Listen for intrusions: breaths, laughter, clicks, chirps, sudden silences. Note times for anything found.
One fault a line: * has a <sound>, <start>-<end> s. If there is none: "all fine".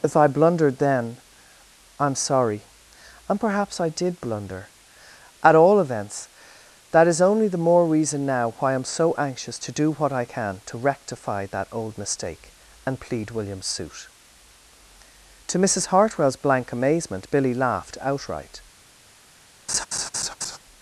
* has a laugh, 19.7-20.6 s